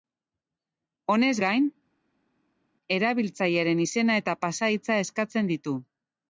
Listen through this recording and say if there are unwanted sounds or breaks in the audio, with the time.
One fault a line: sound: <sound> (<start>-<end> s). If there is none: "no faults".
no faults